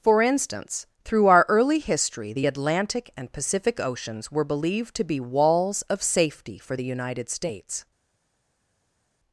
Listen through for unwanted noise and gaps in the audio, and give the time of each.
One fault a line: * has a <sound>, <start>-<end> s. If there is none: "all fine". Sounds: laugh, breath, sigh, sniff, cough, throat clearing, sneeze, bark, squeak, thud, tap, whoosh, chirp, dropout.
all fine